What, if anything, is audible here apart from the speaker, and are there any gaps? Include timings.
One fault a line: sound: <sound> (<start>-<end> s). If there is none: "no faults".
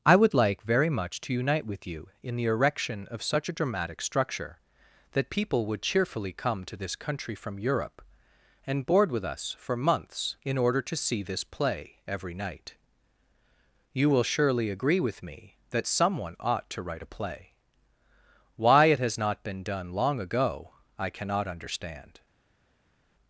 no faults